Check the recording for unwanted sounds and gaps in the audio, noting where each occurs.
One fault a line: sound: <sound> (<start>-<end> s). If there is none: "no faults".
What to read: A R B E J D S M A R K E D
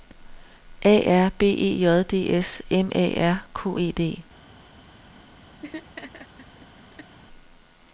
sound: laugh (5.6-7.2 s)